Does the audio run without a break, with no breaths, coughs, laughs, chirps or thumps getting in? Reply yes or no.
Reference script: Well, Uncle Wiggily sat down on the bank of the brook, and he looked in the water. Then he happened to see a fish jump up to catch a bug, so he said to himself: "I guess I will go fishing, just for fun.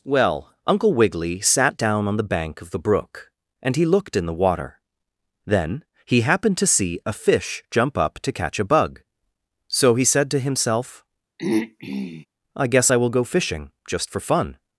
no